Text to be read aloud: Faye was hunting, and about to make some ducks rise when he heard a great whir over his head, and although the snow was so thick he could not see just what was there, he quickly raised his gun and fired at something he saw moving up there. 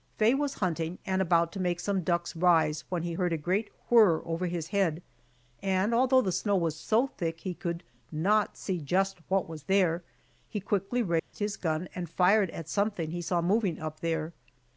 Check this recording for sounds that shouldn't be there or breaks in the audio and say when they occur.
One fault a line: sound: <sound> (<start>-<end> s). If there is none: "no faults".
sound: dropout (11.2-11.3 s)